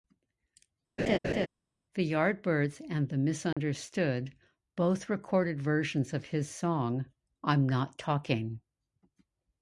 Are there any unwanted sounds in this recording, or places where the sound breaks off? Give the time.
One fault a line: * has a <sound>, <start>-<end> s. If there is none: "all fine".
* has a laugh, 1.0-1.5 s
* has a dropout, 3.5-3.6 s